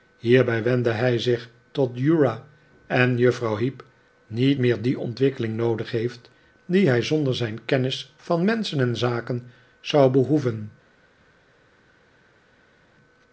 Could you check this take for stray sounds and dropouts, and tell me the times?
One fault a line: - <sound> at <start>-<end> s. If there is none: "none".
none